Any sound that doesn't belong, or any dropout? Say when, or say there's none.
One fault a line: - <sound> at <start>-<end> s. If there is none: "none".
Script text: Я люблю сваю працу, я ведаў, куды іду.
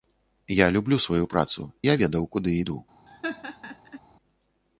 - laugh at 3.1-4.0 s